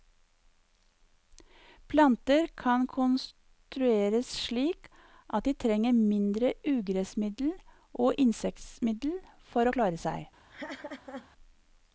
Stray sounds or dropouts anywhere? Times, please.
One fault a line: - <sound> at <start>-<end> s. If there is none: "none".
- laugh at 10.5-11.3 s